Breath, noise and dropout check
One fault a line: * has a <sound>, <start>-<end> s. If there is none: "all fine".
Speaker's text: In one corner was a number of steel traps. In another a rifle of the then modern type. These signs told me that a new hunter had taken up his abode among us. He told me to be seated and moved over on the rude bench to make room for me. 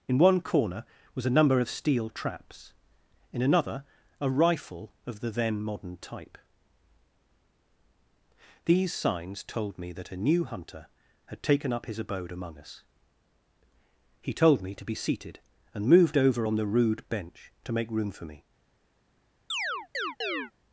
* has a chirp, 19.5-20.5 s